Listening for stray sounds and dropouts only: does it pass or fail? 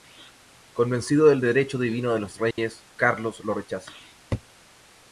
fail